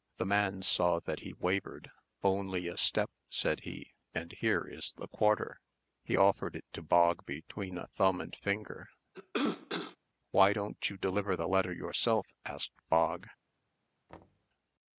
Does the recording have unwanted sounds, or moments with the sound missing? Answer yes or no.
yes